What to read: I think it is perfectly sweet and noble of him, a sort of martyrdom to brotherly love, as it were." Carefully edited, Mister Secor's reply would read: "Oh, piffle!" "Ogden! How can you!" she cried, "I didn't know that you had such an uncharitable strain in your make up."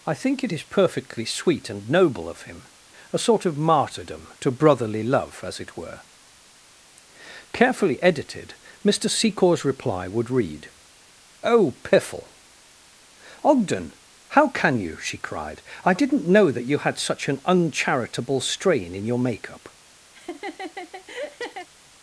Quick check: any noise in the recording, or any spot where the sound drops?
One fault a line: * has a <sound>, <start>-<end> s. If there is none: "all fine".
* has a laugh, 20.1-21.7 s